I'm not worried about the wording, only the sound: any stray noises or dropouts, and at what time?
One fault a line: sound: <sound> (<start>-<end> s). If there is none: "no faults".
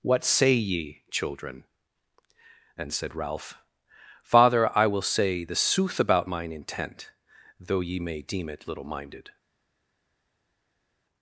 no faults